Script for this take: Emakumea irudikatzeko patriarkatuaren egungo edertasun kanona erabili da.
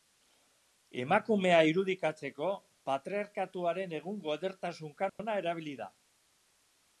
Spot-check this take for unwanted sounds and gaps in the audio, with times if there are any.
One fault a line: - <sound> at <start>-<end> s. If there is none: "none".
- dropout at 5.1-5.2 s